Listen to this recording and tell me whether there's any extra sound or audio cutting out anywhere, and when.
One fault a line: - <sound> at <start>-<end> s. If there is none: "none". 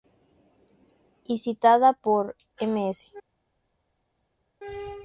none